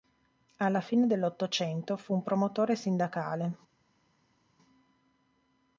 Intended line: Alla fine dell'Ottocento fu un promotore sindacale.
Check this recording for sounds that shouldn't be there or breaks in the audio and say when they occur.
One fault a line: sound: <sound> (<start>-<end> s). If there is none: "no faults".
no faults